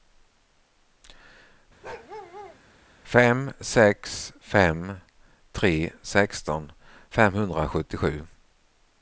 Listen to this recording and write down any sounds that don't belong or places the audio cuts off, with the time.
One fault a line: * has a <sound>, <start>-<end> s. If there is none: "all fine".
* has a bark, 1.8-2.6 s